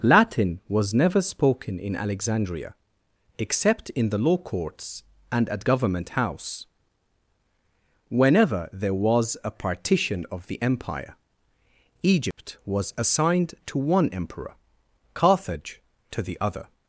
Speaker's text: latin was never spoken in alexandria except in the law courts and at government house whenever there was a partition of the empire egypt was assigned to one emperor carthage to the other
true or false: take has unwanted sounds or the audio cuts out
true